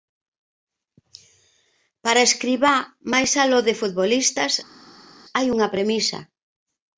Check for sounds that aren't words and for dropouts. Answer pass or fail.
pass